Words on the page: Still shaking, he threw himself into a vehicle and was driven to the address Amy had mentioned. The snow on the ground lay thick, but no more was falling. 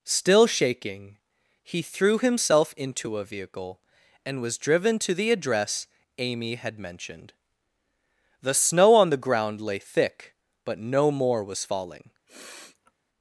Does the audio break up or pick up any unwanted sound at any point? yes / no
yes